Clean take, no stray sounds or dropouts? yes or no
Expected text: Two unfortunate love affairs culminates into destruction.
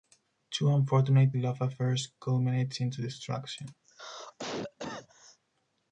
no